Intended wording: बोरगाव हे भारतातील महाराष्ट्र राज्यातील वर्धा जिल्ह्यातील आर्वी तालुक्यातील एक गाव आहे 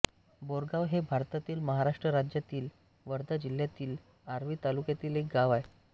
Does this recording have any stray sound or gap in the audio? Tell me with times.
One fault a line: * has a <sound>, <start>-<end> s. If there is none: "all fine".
all fine